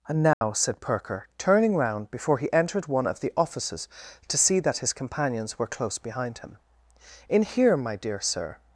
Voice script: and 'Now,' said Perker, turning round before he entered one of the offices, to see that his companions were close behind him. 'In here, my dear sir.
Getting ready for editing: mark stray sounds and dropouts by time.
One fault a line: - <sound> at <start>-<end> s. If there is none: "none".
- dropout at 0.3-0.4 s